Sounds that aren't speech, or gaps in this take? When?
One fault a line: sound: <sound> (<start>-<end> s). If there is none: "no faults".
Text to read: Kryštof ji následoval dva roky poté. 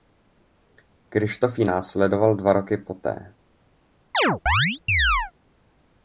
sound: chirp (4.1-5.3 s)